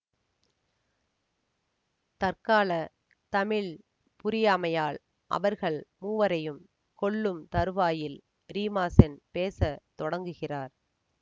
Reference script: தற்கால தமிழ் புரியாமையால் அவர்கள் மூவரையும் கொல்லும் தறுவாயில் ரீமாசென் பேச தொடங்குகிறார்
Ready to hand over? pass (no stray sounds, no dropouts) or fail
pass